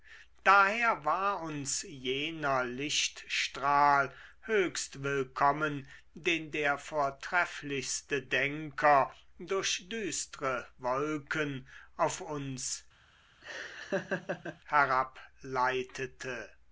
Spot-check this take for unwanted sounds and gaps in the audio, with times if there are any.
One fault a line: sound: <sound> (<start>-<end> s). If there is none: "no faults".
sound: laugh (13.4-14.6 s)